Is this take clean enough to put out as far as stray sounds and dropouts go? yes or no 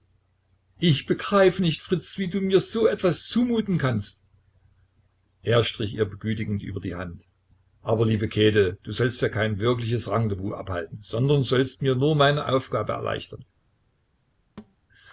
no